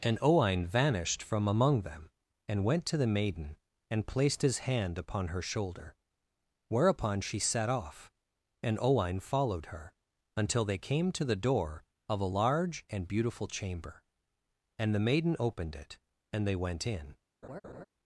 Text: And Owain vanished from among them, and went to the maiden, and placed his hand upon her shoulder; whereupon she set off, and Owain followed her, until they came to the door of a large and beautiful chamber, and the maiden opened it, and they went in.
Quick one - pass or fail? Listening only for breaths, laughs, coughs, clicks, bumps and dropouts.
fail